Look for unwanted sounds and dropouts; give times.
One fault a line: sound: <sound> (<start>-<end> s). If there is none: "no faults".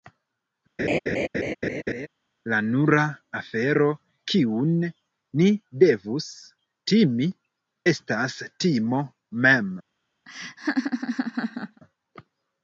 sound: laugh (0.8-2.1 s)
sound: laugh (10.3-11.8 s)